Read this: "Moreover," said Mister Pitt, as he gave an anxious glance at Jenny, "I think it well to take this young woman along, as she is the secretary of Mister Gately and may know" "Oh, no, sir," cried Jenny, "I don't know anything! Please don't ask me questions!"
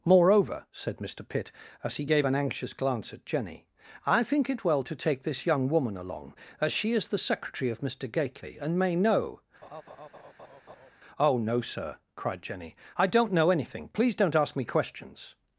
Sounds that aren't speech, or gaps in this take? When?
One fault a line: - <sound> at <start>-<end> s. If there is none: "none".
- laugh at 9.6-10.9 s